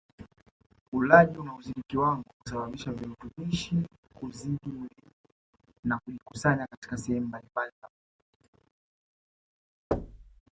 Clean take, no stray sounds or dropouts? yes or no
no